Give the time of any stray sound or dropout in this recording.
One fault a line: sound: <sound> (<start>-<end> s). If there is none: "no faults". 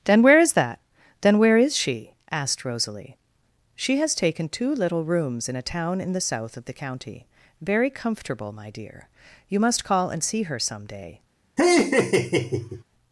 sound: laugh (11.6-12.8 s)